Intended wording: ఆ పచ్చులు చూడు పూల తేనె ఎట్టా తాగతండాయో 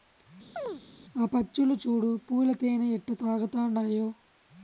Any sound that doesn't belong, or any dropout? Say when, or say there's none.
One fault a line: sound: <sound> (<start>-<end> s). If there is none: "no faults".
sound: chirp (0.6-0.8 s)